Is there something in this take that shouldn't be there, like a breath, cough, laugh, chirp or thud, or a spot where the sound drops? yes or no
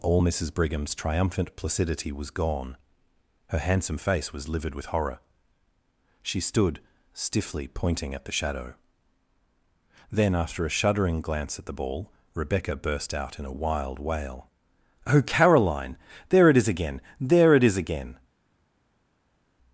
no